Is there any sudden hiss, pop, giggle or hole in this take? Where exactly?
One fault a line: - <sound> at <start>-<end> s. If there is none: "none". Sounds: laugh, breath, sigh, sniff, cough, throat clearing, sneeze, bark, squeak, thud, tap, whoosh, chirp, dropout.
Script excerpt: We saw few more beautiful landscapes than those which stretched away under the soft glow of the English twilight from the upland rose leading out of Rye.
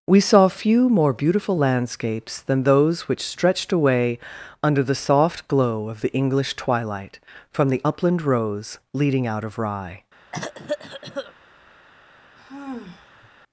- cough at 10.3-11.3 s
- sigh at 12.4-13.3 s